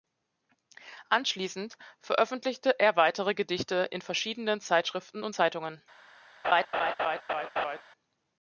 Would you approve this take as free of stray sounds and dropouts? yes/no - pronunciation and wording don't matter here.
no